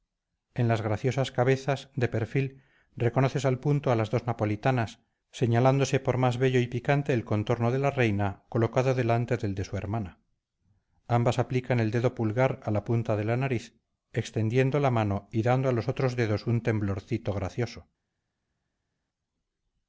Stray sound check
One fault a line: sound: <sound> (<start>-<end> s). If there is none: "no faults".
no faults